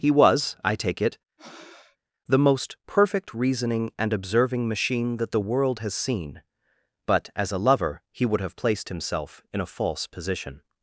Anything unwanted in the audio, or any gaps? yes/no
yes